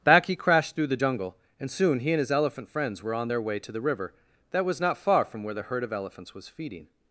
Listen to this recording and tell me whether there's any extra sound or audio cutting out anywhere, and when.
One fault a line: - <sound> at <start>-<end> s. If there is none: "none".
none